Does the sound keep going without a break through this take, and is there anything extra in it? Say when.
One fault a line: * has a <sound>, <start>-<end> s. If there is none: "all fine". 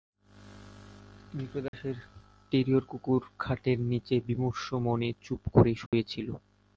* has a dropout, 1.7-1.7 s
* has a dropout, 5.9-5.9 s